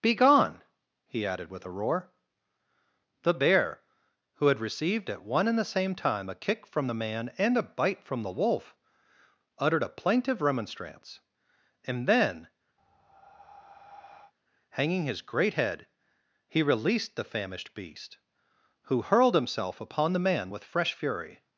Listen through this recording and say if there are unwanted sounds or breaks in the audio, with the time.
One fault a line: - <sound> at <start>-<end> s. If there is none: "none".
- breath at 12.8-14.3 s